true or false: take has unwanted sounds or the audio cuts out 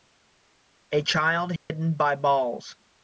true